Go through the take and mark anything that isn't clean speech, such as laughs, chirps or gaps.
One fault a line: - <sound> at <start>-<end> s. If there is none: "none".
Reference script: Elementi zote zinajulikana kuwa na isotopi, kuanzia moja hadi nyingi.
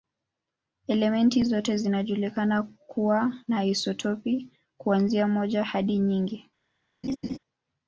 - laugh at 7.0-7.4 s